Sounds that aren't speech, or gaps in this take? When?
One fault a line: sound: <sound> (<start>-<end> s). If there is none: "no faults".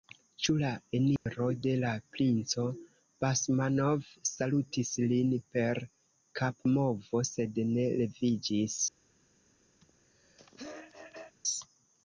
sound: dropout (1.2-1.3 s)
sound: throat clearing (9.8-11.3 s)